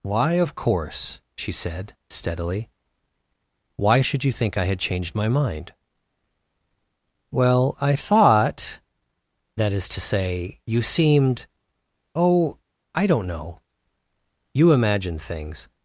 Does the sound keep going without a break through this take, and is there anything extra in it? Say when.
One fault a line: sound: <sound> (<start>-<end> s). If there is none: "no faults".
no faults